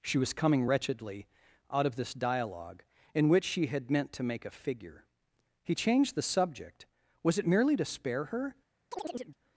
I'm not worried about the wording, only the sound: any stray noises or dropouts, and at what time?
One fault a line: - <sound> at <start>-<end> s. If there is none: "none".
- chirp at 8.9-9.4 s